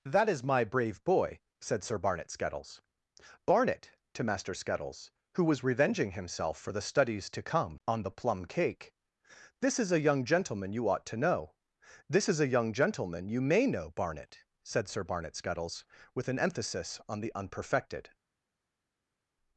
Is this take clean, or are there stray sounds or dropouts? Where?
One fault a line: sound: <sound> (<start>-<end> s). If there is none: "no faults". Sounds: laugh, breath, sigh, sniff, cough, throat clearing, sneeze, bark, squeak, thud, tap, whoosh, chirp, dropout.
no faults